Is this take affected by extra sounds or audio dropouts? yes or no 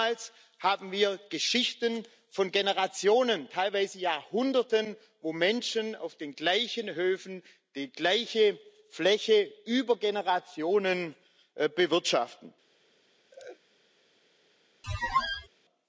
yes